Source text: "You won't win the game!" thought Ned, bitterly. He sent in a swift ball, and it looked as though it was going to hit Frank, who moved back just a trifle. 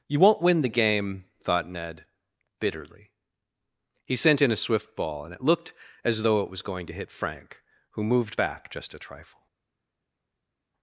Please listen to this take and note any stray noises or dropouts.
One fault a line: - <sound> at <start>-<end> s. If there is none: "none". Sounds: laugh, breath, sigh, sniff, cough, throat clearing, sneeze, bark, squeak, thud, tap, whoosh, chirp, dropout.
none